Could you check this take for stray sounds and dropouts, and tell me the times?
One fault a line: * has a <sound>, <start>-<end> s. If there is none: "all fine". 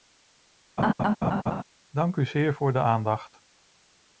* has a laugh, 0.8-1.6 s